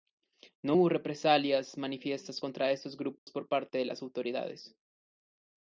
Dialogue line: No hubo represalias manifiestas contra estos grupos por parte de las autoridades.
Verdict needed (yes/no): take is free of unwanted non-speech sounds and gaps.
no